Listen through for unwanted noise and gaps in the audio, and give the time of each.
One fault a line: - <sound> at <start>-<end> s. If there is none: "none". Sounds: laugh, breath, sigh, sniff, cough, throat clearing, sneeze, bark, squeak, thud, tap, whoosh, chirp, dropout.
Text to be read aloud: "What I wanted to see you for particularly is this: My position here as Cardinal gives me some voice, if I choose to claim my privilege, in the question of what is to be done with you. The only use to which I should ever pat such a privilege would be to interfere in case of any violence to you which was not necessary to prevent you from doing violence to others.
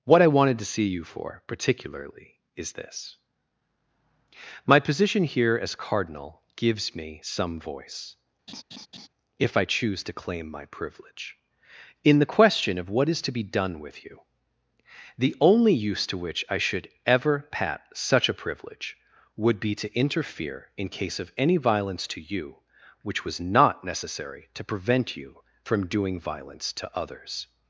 - laugh at 8.5-9.1 s